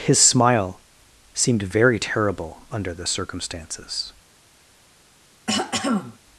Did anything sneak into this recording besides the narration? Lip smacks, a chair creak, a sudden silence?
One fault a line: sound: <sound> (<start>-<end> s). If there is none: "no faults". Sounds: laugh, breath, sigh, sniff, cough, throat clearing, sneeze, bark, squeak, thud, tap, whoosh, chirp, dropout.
sound: throat clearing (5.5-6.2 s)